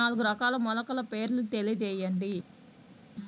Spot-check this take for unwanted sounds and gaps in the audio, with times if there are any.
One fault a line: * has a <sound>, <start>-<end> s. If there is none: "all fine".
all fine